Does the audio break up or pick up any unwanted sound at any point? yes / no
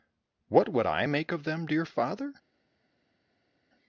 no